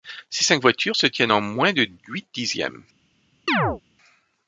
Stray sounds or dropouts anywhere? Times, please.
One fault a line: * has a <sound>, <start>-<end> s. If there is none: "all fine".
* has a chirp, 3.5-3.8 s